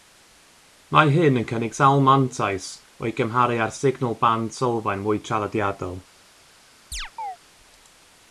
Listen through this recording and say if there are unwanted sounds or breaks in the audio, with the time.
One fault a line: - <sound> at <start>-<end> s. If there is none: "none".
- chirp at 6.9-7.4 s